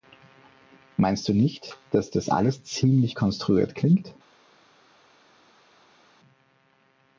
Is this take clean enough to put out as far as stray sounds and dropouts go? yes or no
yes